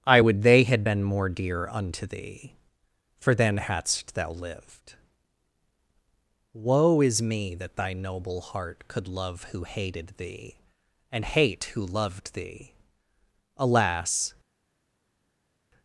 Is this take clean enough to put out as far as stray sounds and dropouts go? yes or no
yes